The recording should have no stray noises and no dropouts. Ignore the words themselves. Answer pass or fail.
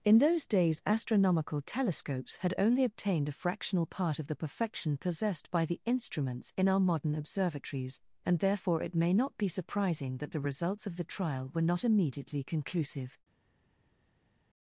pass